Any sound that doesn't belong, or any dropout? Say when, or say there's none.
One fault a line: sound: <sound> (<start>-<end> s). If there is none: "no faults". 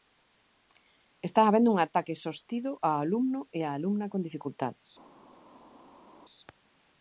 no faults